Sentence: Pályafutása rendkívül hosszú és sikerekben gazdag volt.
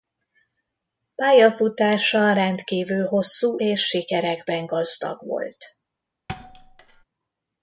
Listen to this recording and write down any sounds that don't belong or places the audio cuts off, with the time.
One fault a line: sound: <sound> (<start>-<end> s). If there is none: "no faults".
sound: thud (6.3-7.0 s)